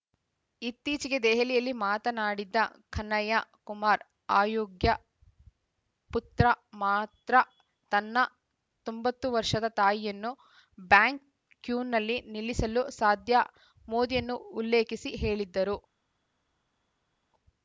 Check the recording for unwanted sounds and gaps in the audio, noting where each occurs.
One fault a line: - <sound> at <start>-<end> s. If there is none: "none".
none